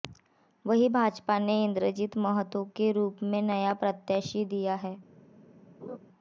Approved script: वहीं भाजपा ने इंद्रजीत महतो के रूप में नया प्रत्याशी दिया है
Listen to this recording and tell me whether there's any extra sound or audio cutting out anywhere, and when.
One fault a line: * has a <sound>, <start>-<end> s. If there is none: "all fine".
* has a laugh, 5.8-6.0 s